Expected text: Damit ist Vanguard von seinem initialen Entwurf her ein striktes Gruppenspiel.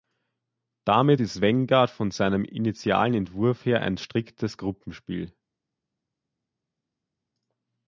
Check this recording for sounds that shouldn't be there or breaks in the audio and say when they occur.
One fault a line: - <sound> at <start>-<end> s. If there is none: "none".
none